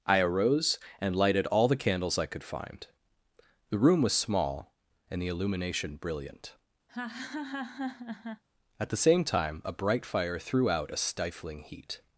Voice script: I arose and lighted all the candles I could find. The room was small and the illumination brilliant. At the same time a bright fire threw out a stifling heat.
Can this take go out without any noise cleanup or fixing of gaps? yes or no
no